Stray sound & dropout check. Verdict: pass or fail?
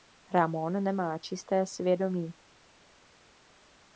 pass